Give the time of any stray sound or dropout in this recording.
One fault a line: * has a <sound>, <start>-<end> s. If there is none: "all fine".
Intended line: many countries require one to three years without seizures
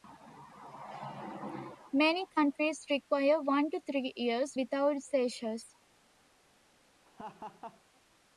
* has a laugh, 7.0-7.8 s